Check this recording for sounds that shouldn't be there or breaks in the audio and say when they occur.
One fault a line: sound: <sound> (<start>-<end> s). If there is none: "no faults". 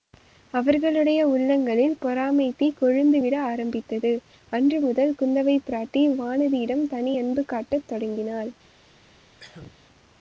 sound: cough (9.4-9.8 s)